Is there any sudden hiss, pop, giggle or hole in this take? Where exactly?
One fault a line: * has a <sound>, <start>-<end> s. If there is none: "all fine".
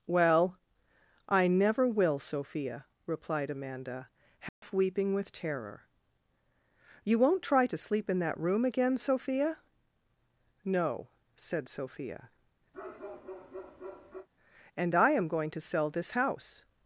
* has a dropout, 4.5-4.6 s
* has a bark, 12.7-14.3 s